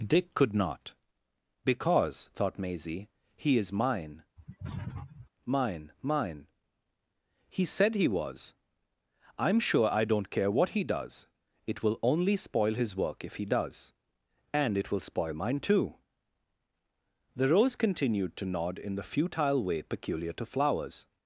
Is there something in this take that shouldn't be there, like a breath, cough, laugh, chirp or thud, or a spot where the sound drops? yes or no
yes